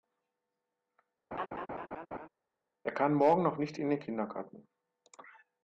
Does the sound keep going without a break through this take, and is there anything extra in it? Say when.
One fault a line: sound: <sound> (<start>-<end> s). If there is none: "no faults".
sound: laugh (1.3-2.3 s)